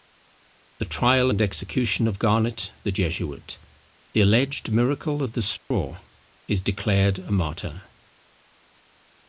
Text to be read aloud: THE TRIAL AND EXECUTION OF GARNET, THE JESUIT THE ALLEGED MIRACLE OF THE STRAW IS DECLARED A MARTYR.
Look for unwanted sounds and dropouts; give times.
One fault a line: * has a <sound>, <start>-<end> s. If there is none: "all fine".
* has a dropout, 5.6-5.7 s